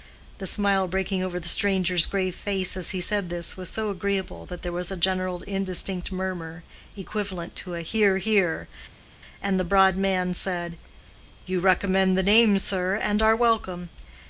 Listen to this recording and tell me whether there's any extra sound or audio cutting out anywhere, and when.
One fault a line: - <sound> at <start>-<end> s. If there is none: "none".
none